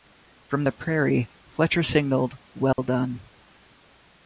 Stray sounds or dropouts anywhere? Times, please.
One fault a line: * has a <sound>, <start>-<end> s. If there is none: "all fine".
* has a dropout, 2.7-2.8 s